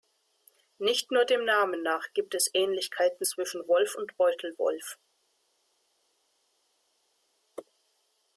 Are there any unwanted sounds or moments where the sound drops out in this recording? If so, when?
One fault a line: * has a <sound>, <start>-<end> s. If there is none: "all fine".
all fine